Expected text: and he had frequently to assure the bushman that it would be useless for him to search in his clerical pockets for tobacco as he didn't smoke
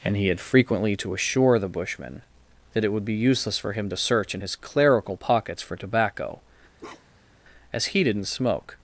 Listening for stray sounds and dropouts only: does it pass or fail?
fail